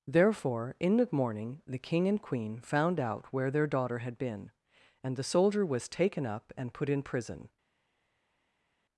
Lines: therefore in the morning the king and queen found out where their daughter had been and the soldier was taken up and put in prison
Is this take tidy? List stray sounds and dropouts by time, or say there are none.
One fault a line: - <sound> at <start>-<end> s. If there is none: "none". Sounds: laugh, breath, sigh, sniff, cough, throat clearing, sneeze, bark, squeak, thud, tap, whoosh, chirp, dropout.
none